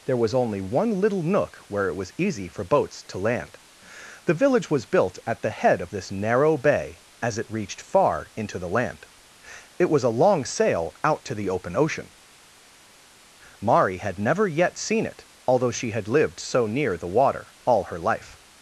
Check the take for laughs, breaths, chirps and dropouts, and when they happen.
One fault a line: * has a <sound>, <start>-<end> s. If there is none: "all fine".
all fine